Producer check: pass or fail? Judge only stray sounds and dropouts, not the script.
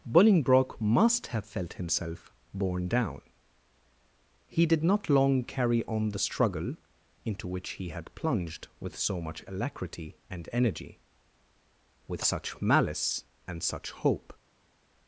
pass